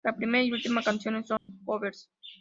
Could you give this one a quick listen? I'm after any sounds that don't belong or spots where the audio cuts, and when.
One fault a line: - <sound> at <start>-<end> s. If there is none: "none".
- dropout at 1.4-1.5 s